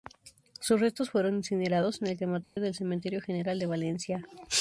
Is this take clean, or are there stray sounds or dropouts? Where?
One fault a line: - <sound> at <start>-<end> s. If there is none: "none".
- dropout at 2.4-2.6 s